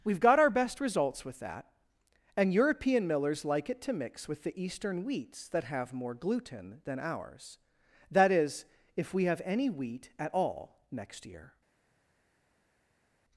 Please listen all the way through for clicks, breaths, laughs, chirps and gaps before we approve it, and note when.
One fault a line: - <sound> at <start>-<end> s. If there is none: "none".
none